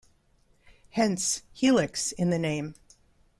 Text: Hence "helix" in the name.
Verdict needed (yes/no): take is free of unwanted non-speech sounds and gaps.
yes